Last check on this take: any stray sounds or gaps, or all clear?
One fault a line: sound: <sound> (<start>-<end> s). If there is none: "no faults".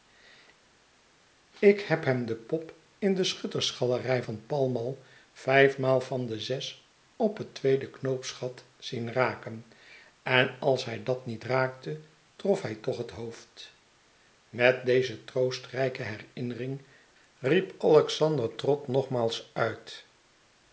no faults